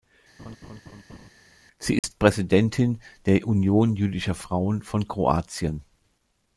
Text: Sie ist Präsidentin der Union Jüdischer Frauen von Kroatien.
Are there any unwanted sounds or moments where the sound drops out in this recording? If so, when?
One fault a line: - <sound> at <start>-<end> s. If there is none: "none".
- laugh at 0.4-1.3 s
- dropout at 2.0-2.0 s